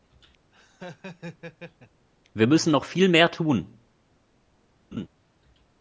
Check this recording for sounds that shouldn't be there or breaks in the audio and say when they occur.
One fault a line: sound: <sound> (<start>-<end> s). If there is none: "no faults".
sound: laugh (0.5-2.1 s)
sound: laugh (4.9-5.1 s)